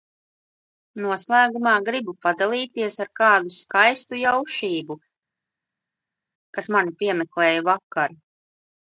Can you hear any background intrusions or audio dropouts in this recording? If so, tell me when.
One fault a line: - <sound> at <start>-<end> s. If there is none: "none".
none